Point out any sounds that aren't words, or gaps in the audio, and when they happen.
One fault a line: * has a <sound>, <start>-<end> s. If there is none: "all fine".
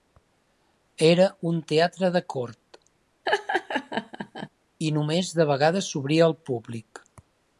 * has a laugh, 3.3-4.5 s